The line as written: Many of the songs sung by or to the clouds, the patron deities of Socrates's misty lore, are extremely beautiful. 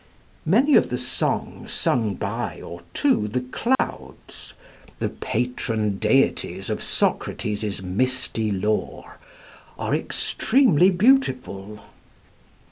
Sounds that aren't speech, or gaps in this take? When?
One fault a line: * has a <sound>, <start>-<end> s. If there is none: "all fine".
* has a dropout, 3.8-3.8 s